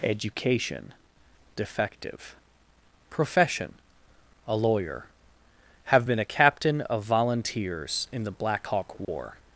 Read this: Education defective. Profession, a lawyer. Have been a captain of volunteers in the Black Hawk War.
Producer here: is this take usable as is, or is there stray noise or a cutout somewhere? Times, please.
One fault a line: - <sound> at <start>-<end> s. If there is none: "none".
- dropout at 9.0-9.1 s